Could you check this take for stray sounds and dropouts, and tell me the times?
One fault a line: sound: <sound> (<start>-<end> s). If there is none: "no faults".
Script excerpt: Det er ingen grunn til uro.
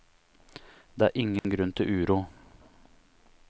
sound: dropout (1.4-1.4 s)